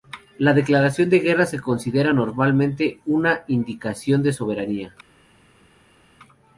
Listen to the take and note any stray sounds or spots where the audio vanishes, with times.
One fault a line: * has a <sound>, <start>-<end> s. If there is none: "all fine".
all fine